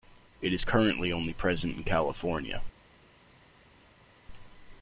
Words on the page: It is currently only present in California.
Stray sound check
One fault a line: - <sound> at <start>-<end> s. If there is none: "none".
none